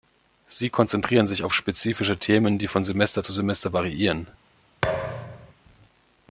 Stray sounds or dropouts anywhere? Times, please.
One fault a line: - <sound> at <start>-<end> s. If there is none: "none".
- thud at 4.8-5.5 s